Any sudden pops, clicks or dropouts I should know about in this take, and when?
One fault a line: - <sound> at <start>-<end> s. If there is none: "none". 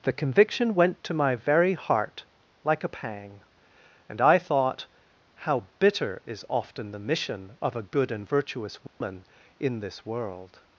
- dropout at 8.9-9.0 s